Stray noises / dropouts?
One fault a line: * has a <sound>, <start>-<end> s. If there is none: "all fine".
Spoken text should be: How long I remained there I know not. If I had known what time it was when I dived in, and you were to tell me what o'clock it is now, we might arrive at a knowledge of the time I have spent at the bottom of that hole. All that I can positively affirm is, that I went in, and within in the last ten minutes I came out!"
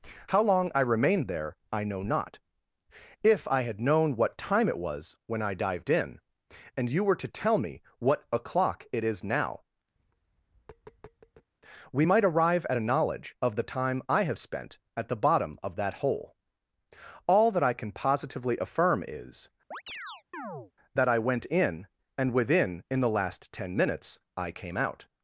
* has a tap, 10.0-11.5 s
* has a chirp, 19.7-20.7 s